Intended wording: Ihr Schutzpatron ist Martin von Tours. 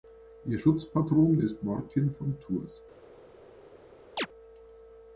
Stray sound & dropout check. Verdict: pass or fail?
fail